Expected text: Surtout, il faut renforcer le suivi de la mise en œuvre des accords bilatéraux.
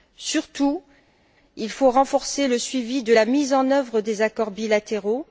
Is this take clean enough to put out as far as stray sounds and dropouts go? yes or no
yes